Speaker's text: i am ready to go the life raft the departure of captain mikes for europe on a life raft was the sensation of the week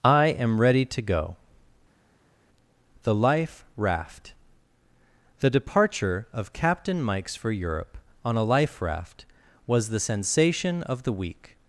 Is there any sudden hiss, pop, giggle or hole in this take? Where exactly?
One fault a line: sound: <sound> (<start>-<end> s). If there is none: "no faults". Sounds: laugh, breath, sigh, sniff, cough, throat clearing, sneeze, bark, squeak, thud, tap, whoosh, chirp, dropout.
no faults